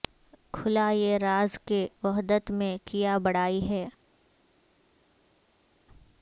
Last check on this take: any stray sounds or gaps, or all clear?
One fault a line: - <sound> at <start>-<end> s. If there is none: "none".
none